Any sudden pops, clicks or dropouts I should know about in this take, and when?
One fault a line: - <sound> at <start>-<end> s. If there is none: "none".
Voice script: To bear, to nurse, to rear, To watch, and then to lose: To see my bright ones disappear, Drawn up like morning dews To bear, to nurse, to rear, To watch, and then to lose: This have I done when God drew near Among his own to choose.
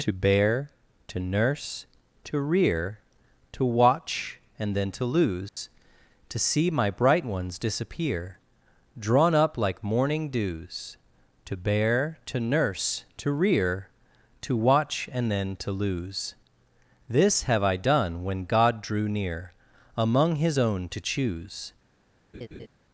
- dropout at 5.5-5.6 s
- laugh at 22.3-22.7 s